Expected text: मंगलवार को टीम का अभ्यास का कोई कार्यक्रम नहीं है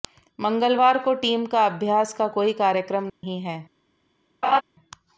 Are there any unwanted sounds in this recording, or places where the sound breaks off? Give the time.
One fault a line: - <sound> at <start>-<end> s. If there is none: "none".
- dropout at 3.1-3.2 s
- laugh at 4.4-4.6 s